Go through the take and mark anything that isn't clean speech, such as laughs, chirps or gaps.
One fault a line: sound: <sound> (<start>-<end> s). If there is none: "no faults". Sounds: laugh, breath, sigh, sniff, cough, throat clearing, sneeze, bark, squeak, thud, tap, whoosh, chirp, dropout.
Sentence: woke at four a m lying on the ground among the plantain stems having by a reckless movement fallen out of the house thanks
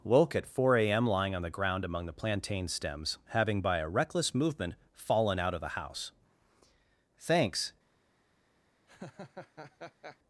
sound: laugh (8.9-10.2 s)